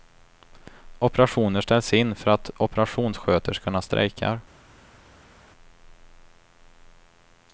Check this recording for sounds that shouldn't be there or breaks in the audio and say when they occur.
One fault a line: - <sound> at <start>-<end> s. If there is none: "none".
none